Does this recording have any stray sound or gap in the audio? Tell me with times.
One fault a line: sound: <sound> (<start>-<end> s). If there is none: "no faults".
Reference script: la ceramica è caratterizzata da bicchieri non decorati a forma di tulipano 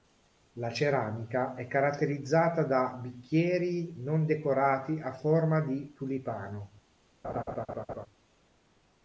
sound: laugh (7.2-8.1 s)